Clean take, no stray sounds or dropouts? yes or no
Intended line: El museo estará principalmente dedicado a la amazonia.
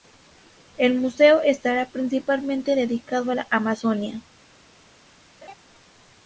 no